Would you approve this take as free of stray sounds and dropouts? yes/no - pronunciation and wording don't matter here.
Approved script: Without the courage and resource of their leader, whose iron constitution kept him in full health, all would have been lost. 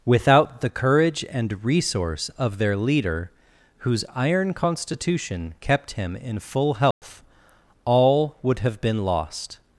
no